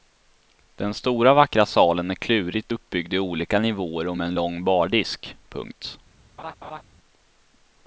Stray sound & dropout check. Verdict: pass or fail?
fail